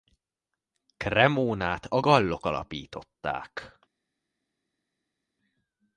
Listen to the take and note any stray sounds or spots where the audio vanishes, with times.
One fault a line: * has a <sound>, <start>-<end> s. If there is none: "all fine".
all fine